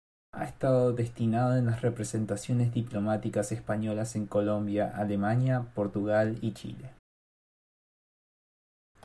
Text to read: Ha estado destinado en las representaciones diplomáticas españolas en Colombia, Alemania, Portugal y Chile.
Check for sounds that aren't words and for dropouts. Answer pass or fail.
pass